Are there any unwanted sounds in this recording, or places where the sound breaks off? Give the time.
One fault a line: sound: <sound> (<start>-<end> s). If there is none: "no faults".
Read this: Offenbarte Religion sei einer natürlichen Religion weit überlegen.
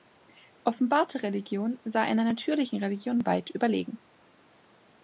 no faults